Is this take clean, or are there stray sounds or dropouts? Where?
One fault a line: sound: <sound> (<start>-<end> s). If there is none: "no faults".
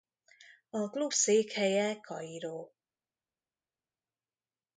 no faults